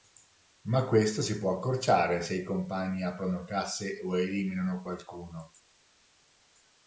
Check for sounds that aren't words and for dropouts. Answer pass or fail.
pass